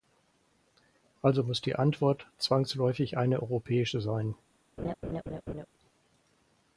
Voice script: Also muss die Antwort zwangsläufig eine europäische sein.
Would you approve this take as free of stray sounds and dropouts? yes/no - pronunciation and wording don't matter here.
no